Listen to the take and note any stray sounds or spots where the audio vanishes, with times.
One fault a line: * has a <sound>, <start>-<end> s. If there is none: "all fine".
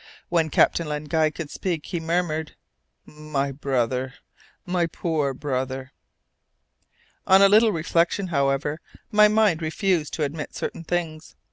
all fine